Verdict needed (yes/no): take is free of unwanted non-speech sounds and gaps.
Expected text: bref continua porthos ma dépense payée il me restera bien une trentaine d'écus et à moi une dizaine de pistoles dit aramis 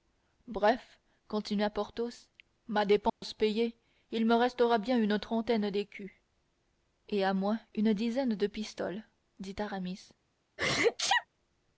no